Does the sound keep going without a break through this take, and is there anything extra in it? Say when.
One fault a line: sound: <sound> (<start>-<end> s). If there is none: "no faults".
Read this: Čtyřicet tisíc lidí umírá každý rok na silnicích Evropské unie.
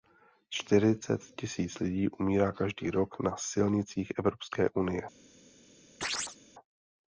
sound: chirp (6.0-6.4 s)